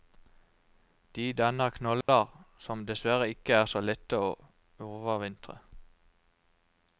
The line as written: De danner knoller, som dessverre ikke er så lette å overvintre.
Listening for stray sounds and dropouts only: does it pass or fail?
fail